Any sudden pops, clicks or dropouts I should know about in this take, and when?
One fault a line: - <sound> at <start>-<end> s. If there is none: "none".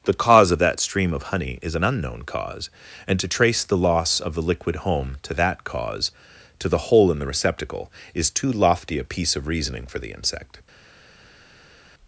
none